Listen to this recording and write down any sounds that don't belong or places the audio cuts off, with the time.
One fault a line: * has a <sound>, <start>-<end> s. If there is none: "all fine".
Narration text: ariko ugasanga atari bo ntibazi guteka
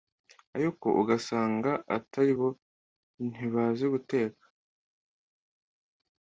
all fine